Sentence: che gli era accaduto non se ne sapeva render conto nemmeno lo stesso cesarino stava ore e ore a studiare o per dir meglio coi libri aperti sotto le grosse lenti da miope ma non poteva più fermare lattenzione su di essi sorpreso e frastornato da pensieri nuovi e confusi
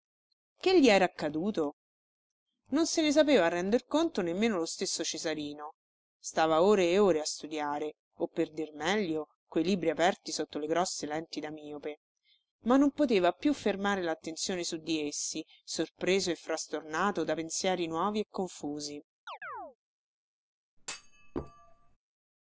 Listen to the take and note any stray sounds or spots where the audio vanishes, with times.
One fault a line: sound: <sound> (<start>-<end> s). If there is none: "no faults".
sound: chirp (19.3-19.8 s)
sound: thud (20.8-22.0 s)